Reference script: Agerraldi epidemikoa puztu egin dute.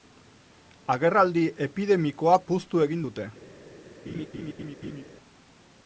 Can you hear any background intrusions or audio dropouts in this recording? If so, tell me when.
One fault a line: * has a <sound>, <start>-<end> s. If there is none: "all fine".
* has a laugh, 4.1-5.0 s